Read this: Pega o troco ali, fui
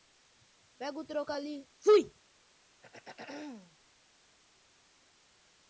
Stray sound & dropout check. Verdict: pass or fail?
fail